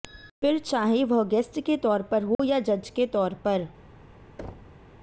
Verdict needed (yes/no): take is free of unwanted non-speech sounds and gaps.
no